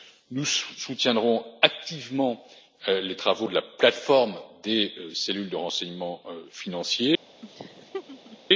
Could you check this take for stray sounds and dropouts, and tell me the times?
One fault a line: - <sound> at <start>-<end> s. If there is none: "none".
- laugh at 7.4-8.4 s